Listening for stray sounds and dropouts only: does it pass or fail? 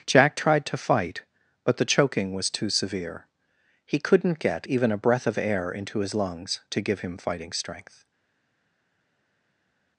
pass